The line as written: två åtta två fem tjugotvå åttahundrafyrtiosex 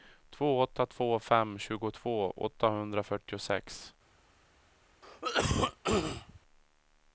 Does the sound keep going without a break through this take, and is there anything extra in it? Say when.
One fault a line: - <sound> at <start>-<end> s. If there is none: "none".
- cough at 5.0-6.4 s